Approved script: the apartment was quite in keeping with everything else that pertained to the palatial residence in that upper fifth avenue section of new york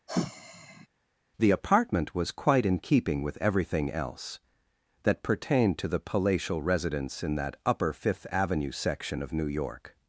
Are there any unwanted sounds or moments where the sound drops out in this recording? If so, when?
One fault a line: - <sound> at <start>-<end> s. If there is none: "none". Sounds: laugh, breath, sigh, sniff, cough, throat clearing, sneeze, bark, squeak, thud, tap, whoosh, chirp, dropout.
- sigh at 0.1-0.9 s